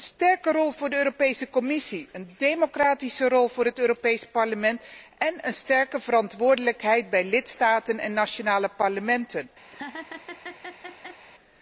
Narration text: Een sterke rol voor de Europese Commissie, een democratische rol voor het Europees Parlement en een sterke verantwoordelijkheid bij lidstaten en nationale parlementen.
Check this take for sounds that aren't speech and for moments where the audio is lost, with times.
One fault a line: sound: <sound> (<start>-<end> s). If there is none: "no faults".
sound: laugh (9.7-11.2 s)